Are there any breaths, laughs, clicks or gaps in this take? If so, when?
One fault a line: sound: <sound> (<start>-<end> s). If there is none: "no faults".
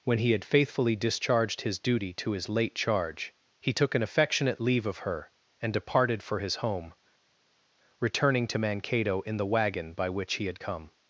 no faults